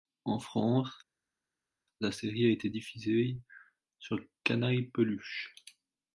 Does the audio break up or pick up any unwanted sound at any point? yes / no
no